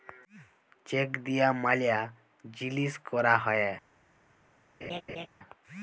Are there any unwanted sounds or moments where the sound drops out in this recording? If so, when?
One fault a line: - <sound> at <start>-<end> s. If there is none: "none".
- laugh at 4.8-5.3 s